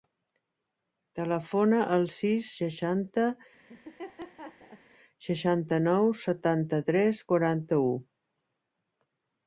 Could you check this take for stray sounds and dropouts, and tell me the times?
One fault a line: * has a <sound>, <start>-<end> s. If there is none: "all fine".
* has a laugh, 3.7-4.8 s